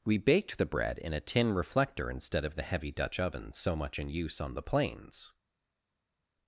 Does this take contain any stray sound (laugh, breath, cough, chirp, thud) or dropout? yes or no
no